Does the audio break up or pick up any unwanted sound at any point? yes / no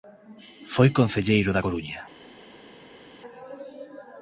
no